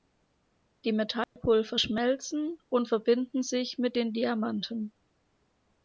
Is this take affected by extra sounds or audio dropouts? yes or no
yes